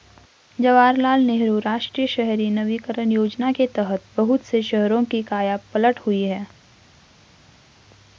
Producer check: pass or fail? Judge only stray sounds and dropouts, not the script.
pass